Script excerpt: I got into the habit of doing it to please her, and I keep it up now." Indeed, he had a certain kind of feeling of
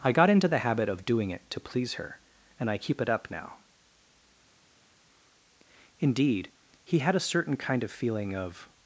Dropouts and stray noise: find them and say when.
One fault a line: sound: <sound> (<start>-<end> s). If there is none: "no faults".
no faults